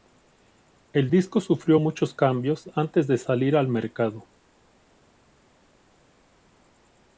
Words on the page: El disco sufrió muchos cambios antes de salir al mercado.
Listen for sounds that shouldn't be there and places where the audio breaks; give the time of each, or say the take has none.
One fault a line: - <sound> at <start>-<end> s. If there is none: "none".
none